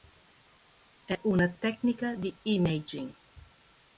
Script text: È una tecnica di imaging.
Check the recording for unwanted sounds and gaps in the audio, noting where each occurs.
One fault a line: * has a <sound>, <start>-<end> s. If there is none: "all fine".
all fine